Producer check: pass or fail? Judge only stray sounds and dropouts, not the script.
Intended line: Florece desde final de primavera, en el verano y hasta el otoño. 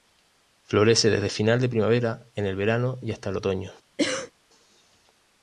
fail